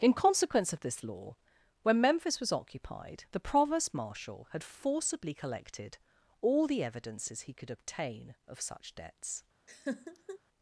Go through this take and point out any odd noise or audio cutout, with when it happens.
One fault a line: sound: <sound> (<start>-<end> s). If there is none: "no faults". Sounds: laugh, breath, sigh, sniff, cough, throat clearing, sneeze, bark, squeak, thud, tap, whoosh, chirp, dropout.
sound: laugh (9.7-10.4 s)